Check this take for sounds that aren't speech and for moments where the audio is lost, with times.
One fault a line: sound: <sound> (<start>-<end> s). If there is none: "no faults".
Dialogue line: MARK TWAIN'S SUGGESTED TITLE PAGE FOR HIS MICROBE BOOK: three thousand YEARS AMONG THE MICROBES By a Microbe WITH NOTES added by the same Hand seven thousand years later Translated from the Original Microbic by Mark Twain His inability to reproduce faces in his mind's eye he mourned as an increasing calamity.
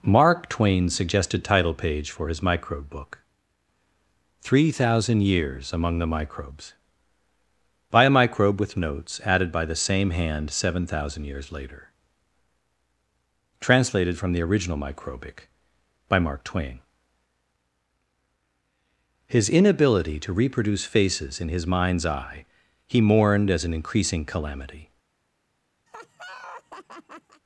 sound: laugh (25.9-27.4 s)